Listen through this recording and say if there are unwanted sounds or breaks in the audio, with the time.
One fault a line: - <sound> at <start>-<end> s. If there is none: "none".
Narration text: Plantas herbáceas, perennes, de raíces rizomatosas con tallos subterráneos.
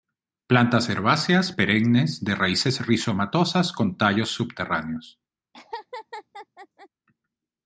- laugh at 5.5-6.9 s